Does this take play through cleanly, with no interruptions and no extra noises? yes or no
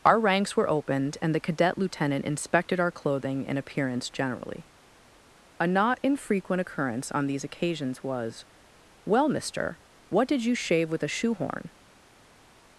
yes